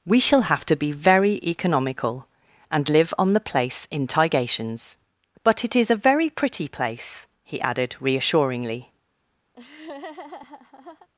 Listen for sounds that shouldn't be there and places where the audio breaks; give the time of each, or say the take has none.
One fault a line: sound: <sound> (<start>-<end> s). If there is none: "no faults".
sound: laugh (9.5-11.1 s)